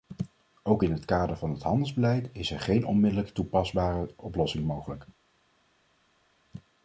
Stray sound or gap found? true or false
false